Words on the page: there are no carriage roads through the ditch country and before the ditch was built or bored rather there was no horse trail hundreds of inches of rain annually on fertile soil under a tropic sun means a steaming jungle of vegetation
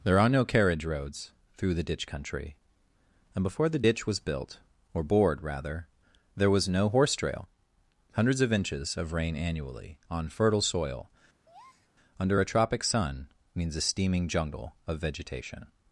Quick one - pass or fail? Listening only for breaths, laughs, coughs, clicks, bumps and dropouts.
fail